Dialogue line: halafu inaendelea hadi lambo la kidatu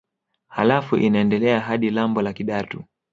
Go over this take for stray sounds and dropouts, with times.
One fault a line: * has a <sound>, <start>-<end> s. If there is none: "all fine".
all fine